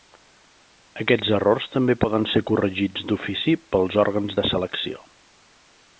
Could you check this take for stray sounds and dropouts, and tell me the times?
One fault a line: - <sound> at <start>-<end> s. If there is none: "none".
none